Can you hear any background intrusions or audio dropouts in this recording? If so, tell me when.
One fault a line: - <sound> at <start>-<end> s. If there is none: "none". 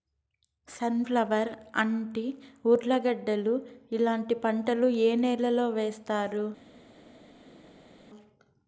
none